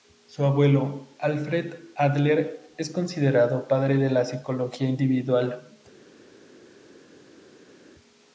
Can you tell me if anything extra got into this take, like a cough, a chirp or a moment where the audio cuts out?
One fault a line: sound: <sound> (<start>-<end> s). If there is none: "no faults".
no faults